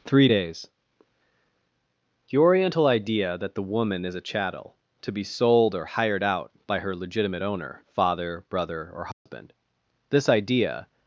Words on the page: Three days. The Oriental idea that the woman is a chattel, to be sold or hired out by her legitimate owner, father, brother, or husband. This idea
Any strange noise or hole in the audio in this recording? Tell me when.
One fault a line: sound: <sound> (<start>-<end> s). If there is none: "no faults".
sound: dropout (9.1-9.3 s)